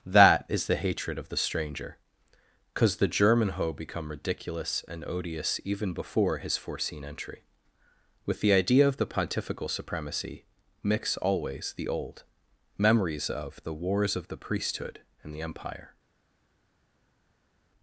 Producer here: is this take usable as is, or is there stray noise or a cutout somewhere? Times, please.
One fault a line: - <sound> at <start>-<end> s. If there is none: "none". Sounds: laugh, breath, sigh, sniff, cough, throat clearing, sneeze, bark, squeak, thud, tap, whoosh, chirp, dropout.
none